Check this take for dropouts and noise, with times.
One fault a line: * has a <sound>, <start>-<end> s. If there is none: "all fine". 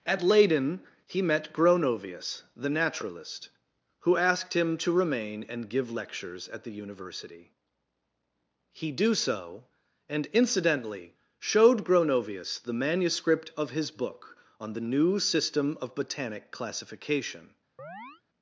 * has a chirp, 17.8-18.2 s